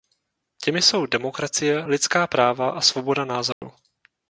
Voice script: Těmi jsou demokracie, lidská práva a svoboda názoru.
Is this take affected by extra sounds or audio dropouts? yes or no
yes